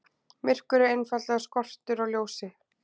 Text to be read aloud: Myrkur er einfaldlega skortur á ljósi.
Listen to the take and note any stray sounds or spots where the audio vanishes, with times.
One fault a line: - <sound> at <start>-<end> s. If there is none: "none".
none